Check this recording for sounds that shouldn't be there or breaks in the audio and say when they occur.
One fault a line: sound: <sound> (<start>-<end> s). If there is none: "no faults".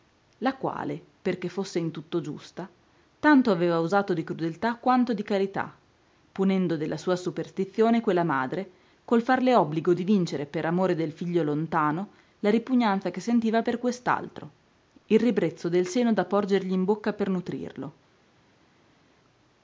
no faults